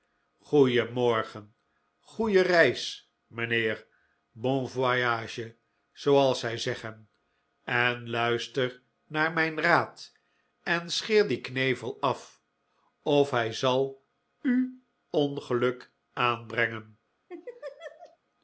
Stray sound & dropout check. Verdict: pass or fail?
fail